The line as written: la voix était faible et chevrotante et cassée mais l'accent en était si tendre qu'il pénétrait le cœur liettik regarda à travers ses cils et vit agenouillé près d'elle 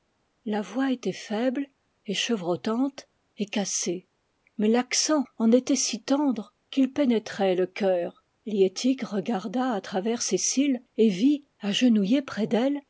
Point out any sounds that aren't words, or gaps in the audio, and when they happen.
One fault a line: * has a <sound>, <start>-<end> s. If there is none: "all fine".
all fine